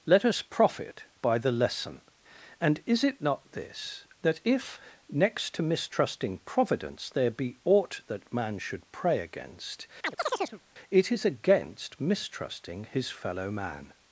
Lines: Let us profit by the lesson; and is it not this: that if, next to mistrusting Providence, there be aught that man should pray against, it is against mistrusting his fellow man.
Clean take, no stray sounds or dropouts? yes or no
no